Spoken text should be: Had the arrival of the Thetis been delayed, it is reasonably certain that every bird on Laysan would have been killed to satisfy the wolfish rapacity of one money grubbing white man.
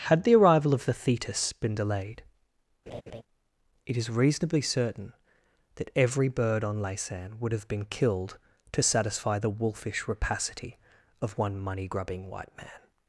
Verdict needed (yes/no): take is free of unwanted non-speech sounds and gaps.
no